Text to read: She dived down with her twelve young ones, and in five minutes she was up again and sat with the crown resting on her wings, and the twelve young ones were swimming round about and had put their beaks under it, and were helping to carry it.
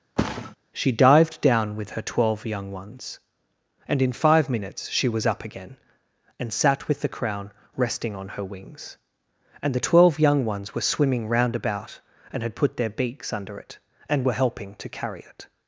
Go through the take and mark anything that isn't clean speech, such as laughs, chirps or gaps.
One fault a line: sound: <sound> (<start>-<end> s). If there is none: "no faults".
sound: thud (0.2-0.6 s)